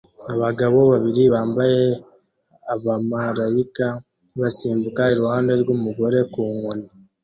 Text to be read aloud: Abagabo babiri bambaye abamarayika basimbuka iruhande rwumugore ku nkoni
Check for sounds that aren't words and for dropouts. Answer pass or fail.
pass